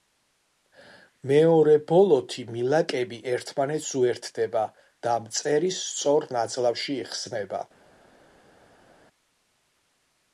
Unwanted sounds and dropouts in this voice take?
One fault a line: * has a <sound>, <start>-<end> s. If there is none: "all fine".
all fine